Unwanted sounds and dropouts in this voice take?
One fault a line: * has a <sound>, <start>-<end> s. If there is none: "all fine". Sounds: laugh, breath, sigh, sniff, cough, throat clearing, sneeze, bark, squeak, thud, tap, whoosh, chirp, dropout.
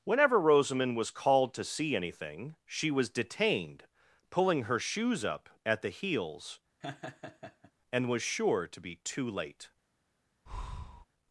* has a laugh, 6.8-7.7 s
* has a breath, 10.5-11.1 s